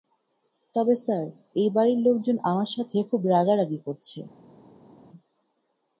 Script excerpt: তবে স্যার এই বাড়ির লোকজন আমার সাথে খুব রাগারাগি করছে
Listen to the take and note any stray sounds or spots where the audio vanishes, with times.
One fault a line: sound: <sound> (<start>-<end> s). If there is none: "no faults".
no faults